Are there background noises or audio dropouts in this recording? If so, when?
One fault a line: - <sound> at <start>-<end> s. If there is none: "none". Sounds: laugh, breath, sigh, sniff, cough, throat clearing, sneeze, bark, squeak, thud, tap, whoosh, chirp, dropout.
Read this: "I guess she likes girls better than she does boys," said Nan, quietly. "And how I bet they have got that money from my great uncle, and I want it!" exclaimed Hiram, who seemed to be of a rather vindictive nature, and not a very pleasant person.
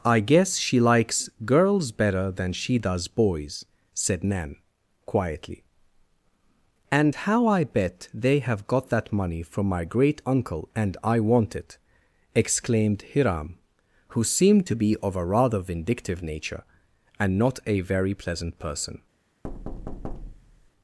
- thud at 19.4-20.7 s